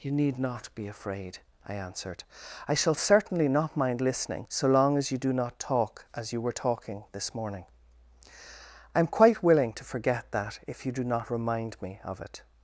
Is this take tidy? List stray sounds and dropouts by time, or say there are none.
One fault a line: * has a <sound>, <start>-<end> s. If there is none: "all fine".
all fine